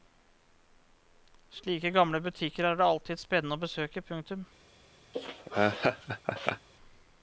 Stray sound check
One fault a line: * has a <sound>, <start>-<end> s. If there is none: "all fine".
* has a laugh, 5.1-6.7 s